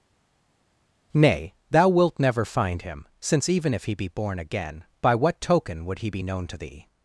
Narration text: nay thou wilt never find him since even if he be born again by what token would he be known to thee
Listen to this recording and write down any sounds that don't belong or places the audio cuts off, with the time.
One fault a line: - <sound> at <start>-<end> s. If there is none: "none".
none